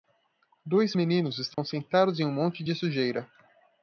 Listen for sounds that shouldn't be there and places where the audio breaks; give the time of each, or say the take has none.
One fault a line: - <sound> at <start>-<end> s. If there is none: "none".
- dropout at 1.5-1.6 s